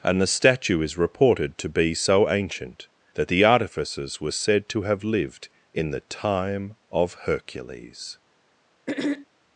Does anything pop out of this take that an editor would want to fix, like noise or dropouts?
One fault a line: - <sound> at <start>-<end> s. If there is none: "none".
- throat clearing at 8.9-9.3 s